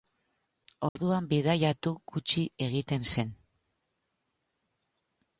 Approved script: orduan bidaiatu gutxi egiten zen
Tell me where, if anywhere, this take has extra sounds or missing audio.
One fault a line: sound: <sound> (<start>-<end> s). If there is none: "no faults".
sound: dropout (0.9-1.0 s)